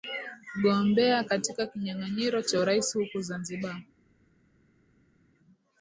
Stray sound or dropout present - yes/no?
no